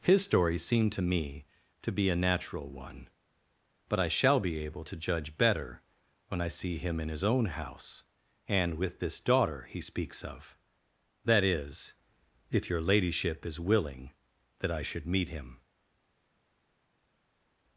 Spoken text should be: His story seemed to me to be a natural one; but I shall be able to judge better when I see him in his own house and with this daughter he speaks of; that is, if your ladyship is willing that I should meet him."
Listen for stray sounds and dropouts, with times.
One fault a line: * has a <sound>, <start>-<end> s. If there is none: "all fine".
all fine